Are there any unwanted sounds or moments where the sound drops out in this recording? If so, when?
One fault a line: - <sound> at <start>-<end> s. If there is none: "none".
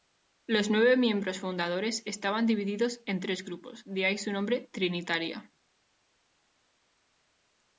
none